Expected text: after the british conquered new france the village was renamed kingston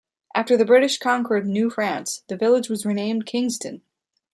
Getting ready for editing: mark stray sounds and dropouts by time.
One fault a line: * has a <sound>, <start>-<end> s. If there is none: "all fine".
all fine